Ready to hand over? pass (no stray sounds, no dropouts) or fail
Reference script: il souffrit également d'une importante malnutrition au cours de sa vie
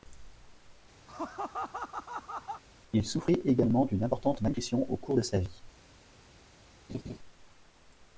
fail